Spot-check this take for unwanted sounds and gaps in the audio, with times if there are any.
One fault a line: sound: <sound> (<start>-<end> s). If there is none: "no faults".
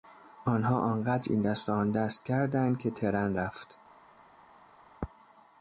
no faults